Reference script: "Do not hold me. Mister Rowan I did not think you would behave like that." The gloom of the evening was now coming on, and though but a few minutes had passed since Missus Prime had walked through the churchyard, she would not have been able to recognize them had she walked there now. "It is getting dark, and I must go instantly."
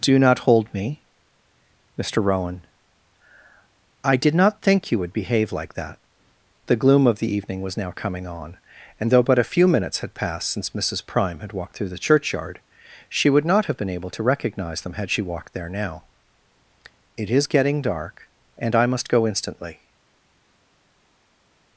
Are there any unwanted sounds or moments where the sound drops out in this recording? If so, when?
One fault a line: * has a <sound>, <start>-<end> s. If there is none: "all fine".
all fine